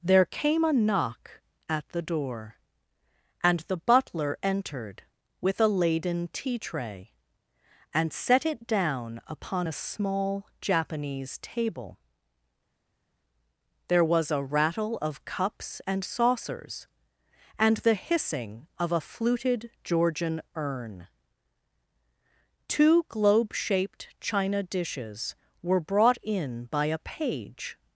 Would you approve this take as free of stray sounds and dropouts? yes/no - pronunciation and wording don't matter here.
yes